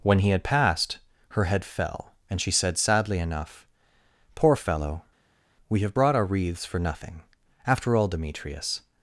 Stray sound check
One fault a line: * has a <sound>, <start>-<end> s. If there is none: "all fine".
all fine